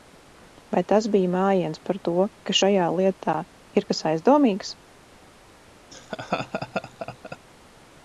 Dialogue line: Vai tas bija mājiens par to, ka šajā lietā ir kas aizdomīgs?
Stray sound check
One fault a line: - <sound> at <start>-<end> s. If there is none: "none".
- laugh at 5.9-7.4 s